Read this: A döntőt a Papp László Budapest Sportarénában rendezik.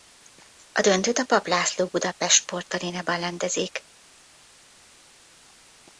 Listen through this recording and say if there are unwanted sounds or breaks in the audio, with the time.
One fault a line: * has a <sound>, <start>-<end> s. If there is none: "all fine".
all fine